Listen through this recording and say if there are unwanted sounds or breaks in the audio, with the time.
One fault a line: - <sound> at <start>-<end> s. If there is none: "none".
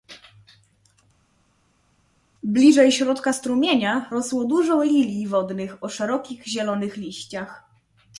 none